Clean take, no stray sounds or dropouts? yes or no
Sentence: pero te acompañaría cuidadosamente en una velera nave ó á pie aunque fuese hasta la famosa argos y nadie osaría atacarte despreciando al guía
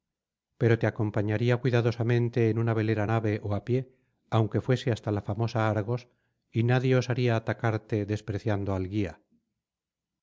yes